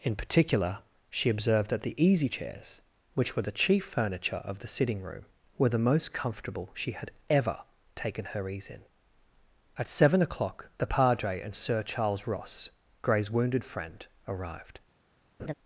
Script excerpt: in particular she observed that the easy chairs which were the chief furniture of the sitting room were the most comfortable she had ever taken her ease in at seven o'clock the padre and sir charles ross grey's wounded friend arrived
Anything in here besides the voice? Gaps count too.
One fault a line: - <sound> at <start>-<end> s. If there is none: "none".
- laugh at 15.4-15.5 s